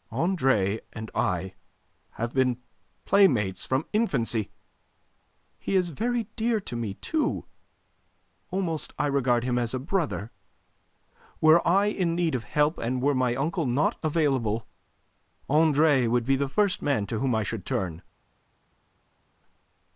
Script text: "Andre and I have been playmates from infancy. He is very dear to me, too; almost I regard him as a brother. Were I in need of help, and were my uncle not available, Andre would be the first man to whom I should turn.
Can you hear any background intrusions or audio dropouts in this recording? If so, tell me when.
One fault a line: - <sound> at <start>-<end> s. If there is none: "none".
none